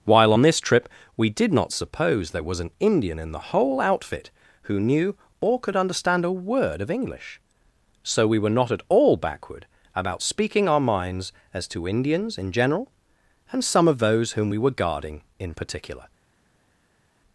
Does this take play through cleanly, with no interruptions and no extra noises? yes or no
yes